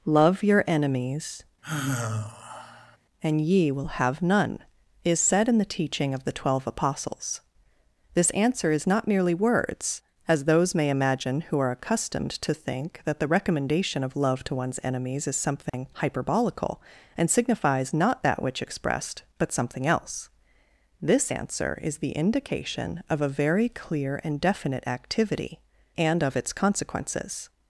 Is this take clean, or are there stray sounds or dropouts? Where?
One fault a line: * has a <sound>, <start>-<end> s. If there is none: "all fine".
* has a sigh, 1.6-3.0 s
* has a dropout, 15.7-15.7 s